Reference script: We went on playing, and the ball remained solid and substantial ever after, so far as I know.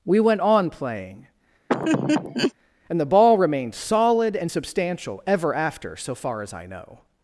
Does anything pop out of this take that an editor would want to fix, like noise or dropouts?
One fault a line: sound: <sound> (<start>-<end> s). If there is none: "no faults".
sound: laugh (1.7-2.5 s)